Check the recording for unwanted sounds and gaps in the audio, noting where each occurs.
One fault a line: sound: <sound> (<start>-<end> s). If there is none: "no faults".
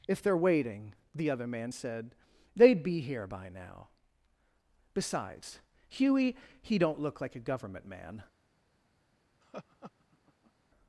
sound: laugh (9.4-10.5 s)